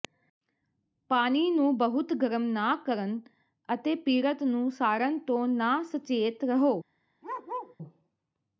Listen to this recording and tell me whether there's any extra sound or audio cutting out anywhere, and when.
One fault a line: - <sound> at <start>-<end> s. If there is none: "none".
- bark at 7.2-7.8 s